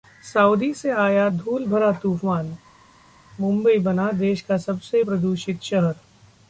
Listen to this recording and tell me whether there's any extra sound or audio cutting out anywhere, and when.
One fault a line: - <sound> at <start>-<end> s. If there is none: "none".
none